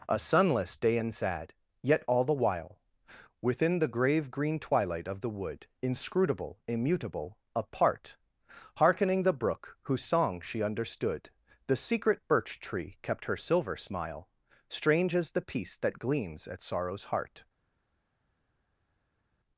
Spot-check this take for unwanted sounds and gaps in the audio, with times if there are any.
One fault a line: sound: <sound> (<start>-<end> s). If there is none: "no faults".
no faults